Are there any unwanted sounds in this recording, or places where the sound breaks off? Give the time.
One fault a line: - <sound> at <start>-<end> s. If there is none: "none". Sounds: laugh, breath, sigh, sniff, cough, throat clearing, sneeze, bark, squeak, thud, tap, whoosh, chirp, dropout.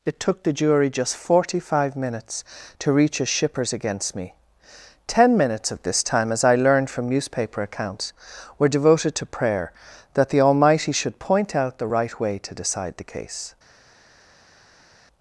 none